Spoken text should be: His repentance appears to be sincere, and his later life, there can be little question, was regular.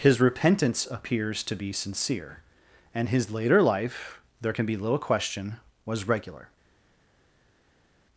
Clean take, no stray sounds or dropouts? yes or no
yes